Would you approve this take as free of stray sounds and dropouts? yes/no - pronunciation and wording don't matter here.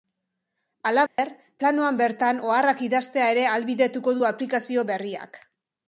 no